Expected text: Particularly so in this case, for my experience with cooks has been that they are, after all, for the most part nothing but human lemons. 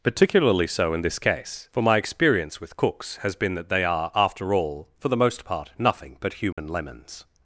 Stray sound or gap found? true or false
true